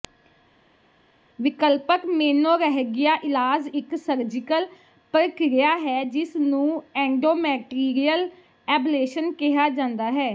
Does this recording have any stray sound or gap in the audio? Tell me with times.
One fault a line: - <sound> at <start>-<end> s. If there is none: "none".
none